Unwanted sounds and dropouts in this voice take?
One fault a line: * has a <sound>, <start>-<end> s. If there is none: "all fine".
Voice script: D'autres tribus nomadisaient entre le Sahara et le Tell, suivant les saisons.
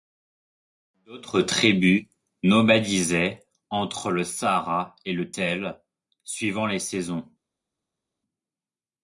all fine